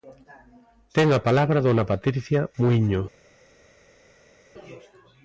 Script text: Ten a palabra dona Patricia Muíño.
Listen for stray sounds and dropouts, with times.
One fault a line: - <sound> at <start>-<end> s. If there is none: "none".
none